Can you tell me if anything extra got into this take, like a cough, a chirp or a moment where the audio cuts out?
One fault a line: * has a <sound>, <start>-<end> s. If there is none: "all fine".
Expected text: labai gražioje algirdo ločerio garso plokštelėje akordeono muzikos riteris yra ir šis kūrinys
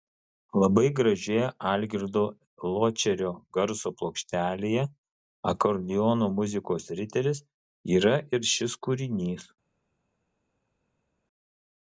all fine